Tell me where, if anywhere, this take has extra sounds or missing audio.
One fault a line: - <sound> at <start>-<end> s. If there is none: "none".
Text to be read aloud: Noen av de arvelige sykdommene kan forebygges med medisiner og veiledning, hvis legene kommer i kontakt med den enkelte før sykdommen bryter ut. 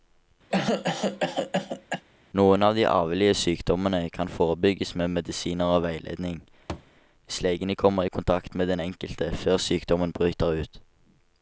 - cough at 0.5-2.0 s
- thud at 6.7-6.9 s